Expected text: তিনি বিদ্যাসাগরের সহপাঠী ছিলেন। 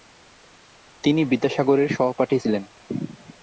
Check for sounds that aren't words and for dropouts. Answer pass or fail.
pass